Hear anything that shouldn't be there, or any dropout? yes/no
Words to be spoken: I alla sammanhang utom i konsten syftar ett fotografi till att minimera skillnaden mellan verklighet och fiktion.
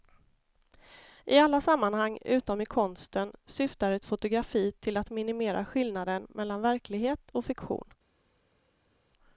no